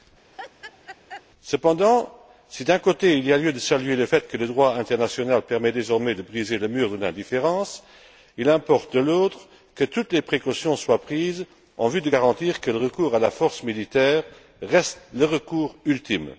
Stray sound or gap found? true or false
true